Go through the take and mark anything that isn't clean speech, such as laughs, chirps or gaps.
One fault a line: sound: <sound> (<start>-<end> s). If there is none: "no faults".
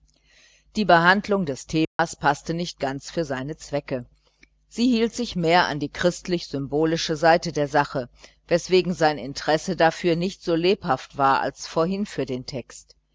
sound: dropout (1.8-2.0 s)